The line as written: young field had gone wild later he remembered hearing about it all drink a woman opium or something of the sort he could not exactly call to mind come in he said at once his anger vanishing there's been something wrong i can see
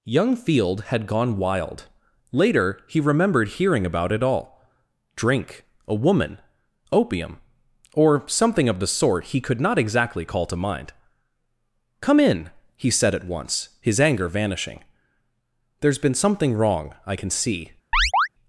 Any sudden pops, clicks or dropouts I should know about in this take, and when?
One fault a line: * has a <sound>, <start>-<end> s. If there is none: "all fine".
* has a chirp, 17.9-18.3 s